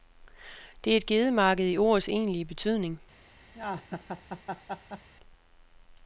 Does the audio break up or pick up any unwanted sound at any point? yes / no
yes